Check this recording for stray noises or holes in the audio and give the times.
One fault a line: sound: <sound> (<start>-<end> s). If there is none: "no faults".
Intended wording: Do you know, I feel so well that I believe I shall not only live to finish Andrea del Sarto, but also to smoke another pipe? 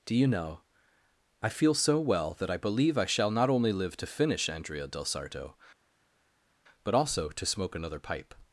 no faults